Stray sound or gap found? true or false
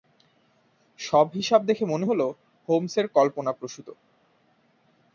false